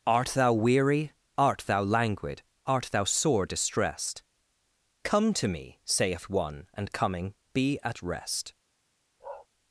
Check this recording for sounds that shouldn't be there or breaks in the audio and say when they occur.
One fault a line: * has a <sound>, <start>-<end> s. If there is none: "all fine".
* has a bark, 9.2-9.5 s